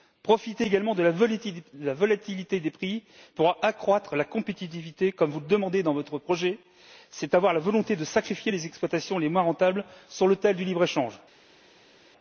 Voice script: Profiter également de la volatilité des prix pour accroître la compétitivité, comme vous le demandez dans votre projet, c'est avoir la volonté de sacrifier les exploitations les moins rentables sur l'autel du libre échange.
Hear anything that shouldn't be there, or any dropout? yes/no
no